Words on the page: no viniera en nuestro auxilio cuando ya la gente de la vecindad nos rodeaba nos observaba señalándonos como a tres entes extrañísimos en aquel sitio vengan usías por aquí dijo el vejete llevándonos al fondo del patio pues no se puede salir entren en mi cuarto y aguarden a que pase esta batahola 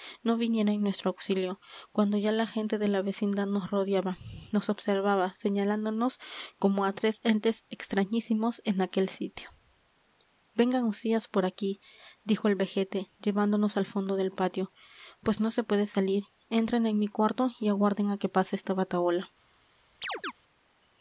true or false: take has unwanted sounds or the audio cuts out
true